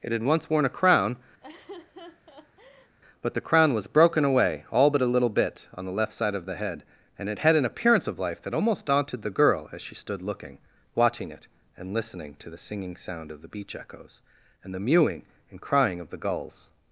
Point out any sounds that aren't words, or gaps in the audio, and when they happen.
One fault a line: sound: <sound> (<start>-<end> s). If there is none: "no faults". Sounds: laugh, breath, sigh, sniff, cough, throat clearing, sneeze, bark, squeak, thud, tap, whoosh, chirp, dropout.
sound: laugh (1.4-3.0 s)